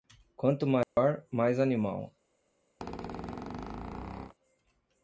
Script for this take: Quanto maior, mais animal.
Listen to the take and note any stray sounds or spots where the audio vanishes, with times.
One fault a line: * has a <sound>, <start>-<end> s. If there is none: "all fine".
* has a dropout, 0.8-1.0 s
* has a squeak, 2.8-4.3 s